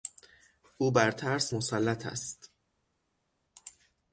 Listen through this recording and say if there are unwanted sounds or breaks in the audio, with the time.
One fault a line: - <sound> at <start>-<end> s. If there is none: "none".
none